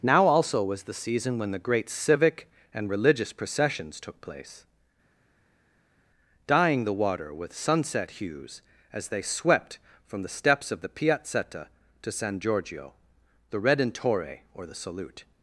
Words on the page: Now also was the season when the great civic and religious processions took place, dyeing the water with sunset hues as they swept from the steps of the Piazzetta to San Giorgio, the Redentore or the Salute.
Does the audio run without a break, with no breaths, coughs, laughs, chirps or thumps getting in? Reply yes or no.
yes